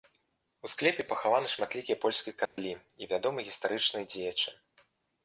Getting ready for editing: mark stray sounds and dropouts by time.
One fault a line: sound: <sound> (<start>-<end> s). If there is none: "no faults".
sound: dropout (2.5-2.6 s)